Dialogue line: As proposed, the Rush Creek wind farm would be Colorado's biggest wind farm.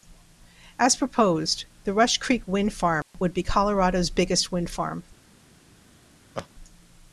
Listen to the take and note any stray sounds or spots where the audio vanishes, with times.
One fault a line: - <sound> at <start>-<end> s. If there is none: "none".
- dropout at 3.0-3.1 s
- laugh at 6.3-6.5 s